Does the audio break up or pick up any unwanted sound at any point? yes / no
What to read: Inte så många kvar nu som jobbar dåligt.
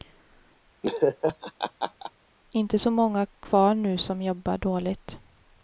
yes